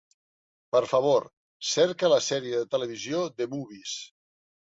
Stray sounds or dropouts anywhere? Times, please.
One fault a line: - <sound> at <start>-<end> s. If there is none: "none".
none